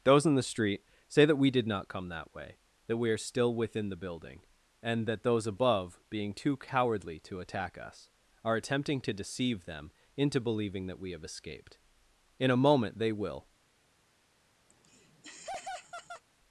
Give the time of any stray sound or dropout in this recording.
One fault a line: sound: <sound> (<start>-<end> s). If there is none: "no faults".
sound: laugh (14.7-16.2 s)